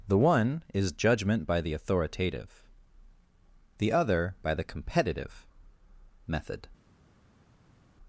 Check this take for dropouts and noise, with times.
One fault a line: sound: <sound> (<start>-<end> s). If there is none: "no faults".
no faults